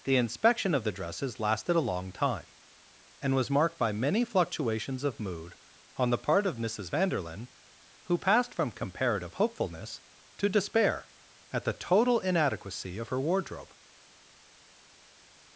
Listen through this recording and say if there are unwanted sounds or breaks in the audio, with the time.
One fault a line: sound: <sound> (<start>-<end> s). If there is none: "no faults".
no faults